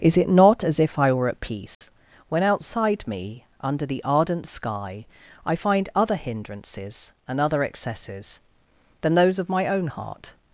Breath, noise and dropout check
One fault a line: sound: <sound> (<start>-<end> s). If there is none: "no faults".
sound: dropout (1.7-1.8 s)